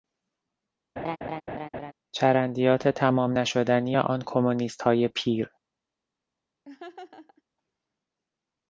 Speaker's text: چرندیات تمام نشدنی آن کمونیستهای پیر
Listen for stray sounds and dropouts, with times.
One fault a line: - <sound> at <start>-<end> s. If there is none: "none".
- laugh at 1.0-1.9 s
- laugh at 6.7-7.4 s